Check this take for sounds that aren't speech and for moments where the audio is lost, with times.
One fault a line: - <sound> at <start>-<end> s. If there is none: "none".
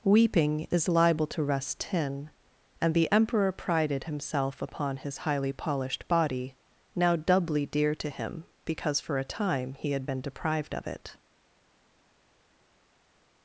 none